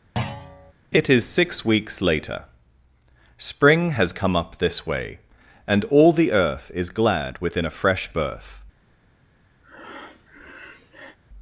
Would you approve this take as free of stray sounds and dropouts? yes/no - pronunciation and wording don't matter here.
no